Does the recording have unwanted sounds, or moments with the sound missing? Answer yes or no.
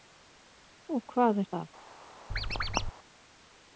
yes